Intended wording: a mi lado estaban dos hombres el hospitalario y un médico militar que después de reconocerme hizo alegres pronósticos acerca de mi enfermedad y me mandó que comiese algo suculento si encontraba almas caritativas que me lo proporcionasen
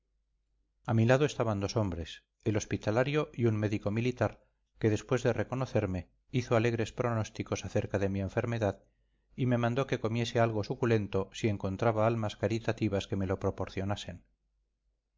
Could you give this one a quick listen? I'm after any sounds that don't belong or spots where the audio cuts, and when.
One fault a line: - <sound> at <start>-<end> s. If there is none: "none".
none